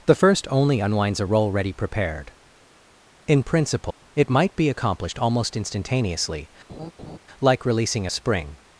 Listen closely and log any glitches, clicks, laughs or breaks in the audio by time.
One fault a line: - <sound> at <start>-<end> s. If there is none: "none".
- dropout at 3.9-4.0 s
- laugh at 6.7-7.2 s